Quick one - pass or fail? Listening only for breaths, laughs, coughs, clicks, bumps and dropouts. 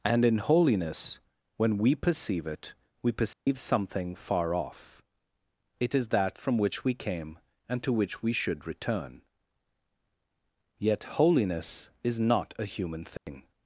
fail